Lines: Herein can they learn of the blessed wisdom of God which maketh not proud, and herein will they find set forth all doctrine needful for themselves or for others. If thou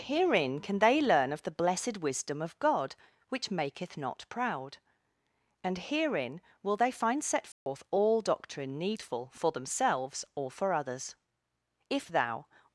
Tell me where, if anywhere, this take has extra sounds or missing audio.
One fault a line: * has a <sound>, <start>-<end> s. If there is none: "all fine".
* has a dropout, 7.5-7.7 s